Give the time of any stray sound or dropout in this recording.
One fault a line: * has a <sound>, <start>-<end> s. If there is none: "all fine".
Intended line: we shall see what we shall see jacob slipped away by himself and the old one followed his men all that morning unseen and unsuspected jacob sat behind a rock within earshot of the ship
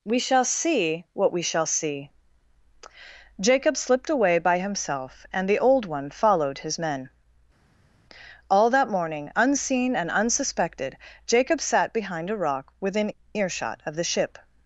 all fine